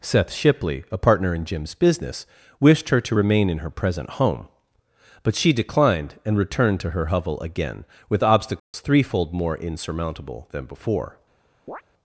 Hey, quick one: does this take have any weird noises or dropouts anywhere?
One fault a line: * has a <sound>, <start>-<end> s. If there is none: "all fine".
* has a dropout, 8.6-8.7 s
* has a chirp, 11.7-11.8 s